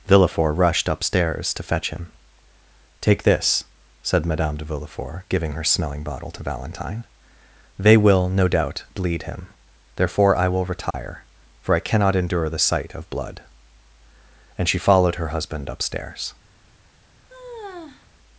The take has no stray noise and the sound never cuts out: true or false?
false